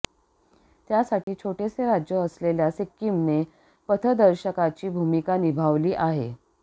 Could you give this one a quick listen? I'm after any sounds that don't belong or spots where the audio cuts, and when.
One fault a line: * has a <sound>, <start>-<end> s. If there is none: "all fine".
* has a dropout, 1.2-1.3 s